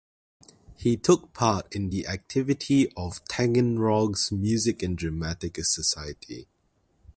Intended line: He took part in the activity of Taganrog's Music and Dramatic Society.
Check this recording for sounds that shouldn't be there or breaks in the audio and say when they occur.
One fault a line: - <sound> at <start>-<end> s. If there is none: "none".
none